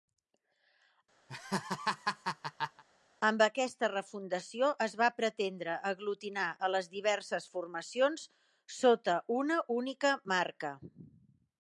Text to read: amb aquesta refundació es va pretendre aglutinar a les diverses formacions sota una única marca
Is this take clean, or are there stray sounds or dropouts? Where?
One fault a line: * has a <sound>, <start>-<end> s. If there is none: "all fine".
* has a laugh, 1.3-2.8 s